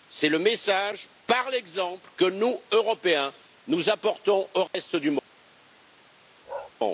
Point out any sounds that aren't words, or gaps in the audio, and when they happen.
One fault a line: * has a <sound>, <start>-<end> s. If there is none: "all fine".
* has a dropout, 4.7-4.7 s
* has a bark, 6.5-6.7 s